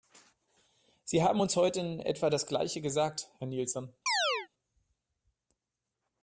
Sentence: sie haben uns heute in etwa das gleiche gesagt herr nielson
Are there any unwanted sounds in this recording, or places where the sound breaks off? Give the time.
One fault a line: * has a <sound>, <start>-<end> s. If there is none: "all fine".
* has a chirp, 4.1-4.5 s